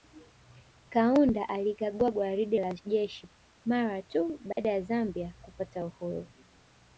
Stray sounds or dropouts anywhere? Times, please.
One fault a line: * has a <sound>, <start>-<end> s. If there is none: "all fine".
* has a dropout, 4.5-4.6 s